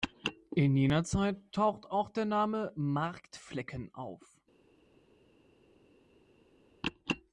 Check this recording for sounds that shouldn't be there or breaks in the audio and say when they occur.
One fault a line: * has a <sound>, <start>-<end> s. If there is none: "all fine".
all fine